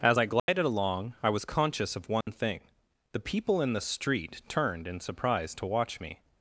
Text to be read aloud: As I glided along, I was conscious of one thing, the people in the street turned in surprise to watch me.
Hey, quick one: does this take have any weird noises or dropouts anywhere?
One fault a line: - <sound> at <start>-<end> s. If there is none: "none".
- dropout at 0.4-0.5 s
- dropout at 2.2-2.3 s